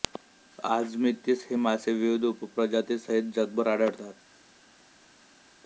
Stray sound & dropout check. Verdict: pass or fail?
pass